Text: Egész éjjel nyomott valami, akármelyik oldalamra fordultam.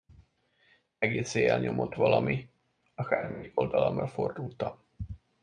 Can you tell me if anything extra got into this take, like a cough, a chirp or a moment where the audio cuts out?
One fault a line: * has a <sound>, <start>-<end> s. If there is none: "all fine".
all fine